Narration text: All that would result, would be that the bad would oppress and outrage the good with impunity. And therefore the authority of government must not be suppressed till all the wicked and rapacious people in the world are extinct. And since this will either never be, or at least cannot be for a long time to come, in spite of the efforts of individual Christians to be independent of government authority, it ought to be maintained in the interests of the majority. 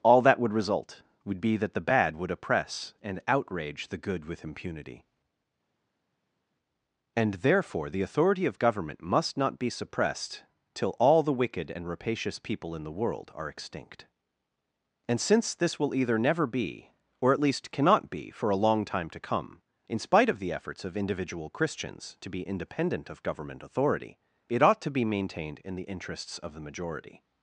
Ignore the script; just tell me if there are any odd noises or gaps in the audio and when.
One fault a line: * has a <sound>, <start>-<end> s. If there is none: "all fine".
all fine